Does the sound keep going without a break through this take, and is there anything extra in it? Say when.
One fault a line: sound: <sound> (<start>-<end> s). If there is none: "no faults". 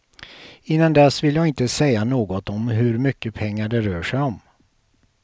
no faults